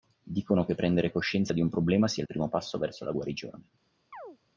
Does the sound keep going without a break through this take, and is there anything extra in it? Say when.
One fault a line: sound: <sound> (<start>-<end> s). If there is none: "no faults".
sound: chirp (4.1-4.4 s)